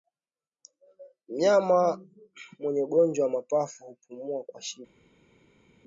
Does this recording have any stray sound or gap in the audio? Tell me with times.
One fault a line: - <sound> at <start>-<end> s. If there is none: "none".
none